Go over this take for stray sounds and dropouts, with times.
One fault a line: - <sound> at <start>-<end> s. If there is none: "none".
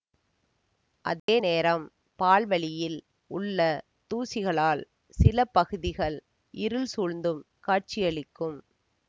- dropout at 1.2-1.3 s